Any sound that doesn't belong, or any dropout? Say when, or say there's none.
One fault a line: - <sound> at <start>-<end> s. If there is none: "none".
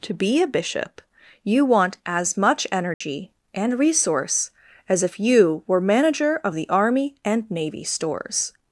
- dropout at 2.9-3.0 s